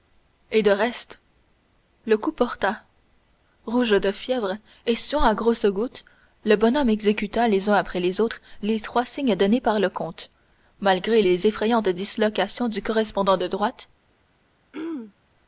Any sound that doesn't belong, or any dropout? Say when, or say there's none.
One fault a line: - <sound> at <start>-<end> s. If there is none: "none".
- throat clearing at 14.7-15.1 s